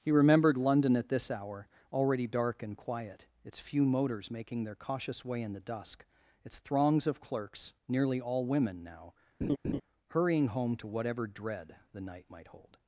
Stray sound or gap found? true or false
true